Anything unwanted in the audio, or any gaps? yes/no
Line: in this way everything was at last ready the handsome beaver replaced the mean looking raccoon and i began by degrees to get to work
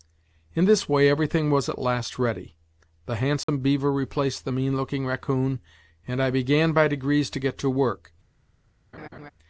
yes